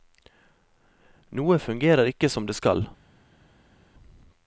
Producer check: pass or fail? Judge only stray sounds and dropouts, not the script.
pass